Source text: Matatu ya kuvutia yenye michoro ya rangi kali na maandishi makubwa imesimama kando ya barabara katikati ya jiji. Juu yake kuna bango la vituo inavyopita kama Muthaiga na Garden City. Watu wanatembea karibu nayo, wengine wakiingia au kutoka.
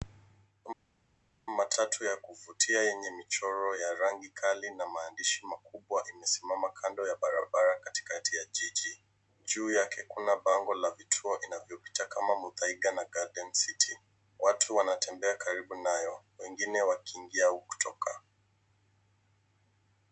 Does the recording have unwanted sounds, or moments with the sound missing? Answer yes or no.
no